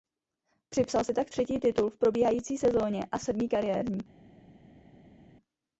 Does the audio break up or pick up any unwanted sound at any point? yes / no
no